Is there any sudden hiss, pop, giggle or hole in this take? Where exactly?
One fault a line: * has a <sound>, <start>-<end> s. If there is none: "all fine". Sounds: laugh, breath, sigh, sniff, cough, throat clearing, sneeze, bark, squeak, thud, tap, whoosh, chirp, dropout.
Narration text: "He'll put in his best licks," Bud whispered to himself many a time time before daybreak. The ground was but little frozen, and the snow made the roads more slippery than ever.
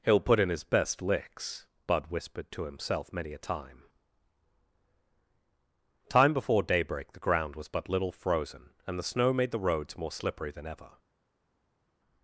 all fine